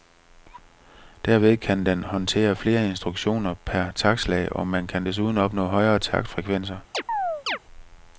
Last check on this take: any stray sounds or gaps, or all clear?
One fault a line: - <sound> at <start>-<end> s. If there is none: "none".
- chirp at 6.9-7.6 s